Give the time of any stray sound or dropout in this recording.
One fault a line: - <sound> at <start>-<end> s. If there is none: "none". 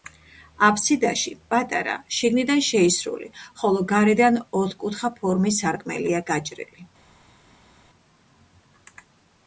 none